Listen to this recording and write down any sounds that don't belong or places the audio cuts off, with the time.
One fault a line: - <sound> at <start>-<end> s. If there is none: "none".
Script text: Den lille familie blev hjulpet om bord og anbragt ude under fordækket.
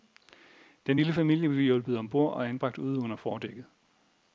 none